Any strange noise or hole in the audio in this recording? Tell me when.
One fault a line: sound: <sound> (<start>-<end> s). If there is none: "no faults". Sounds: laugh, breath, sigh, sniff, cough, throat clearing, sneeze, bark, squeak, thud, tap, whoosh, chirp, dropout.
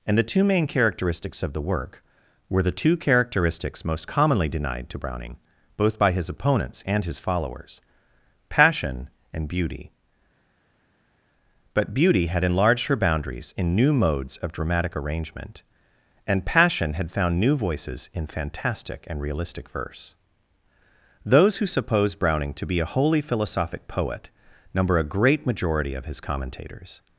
no faults